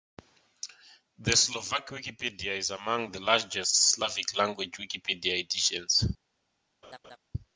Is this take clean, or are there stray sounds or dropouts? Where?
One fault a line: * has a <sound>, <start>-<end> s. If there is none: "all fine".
* has a laugh, 6.8-7.2 s